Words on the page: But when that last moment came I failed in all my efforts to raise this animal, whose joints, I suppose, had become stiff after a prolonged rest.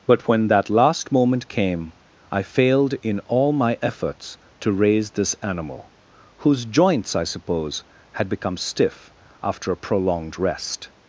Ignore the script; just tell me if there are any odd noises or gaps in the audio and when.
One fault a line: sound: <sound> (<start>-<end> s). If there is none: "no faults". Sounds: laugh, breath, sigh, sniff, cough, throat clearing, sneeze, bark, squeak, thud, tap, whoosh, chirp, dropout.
no faults